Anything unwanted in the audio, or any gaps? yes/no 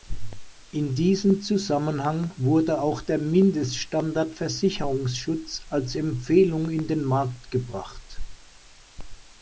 no